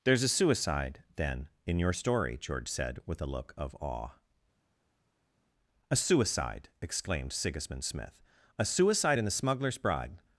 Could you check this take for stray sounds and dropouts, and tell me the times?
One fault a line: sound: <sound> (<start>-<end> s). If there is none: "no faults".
no faults